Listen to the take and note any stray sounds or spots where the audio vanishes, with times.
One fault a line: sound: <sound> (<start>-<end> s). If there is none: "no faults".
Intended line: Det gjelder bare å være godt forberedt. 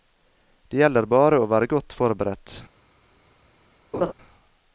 sound: laugh (3.9-4.1 s)